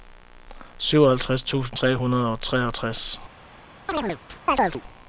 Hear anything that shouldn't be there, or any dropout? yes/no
yes